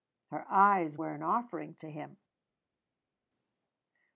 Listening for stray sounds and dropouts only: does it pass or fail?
pass